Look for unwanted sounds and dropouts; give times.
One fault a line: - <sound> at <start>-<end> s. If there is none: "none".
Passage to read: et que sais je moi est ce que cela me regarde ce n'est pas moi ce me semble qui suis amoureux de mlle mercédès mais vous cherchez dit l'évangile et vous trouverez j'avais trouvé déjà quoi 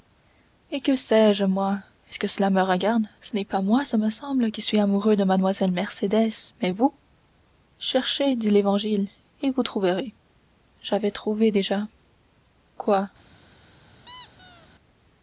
- squeak at 14.1-14.7 s